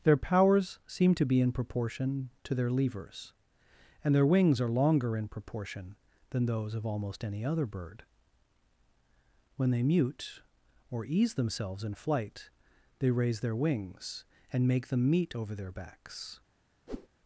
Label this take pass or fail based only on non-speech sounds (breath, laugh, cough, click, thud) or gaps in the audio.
fail